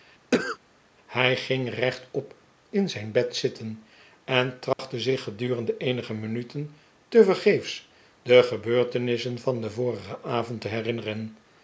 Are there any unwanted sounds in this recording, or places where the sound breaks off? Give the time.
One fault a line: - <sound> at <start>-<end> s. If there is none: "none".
- cough at 0.3-0.6 s
- dropout at 4.7-4.8 s